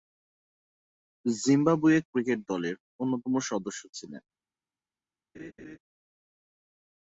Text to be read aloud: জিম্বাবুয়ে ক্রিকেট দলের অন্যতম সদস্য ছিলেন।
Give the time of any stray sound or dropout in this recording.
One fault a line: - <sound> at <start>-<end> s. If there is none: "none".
- laugh at 5.3-5.8 s